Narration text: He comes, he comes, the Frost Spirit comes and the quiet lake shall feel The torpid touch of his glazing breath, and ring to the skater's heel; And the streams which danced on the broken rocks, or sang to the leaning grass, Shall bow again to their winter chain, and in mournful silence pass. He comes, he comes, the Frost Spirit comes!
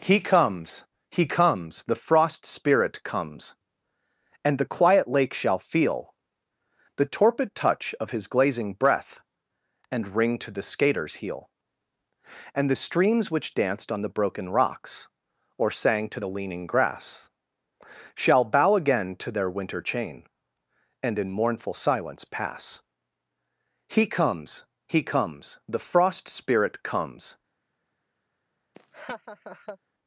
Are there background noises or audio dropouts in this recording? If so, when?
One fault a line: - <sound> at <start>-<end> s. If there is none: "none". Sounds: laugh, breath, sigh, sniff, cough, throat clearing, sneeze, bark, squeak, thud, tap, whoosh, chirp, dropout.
- laugh at 28.7-29.8 s